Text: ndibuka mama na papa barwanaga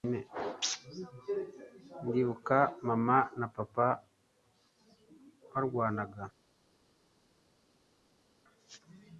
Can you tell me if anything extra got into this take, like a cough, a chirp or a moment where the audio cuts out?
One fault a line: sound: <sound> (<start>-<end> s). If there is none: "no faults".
no faults